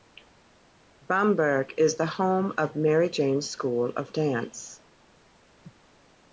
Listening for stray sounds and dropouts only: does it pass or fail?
pass